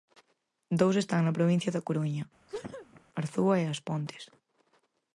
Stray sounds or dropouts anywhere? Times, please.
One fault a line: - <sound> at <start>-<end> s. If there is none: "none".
- sneeze at 2.5-3.0 s